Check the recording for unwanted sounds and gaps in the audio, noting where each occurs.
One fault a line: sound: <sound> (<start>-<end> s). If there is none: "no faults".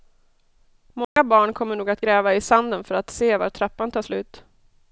sound: dropout (1.0-1.2 s)